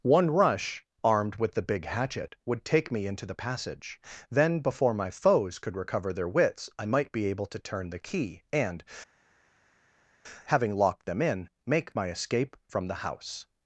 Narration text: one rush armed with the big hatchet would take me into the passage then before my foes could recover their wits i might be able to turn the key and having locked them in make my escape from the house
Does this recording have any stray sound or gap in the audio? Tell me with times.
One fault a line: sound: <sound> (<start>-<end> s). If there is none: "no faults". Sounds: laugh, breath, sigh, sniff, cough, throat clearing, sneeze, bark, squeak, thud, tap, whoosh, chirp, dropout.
no faults